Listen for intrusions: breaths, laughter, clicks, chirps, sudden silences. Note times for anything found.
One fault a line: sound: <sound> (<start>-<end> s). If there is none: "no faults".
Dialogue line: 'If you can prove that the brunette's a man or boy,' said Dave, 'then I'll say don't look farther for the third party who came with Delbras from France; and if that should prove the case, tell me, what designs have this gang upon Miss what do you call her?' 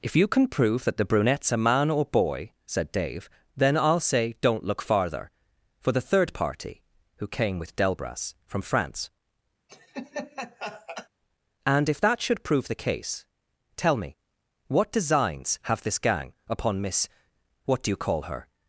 sound: laugh (9.7-11.1 s)